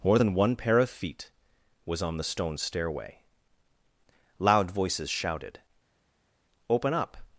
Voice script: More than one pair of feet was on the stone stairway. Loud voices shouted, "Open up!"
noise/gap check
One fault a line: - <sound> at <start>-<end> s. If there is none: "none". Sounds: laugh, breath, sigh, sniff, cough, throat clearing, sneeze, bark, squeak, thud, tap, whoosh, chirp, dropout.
none